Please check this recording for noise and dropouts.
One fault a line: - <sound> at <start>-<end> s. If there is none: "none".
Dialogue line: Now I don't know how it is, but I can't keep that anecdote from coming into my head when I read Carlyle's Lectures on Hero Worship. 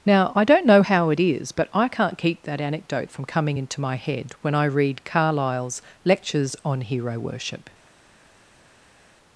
none